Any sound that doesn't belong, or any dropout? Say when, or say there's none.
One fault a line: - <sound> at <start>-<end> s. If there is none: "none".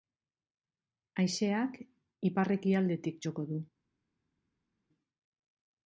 none